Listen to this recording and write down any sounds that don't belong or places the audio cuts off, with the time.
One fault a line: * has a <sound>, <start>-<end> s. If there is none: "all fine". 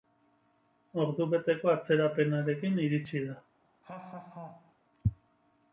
* has a laugh, 3.8-4.8 s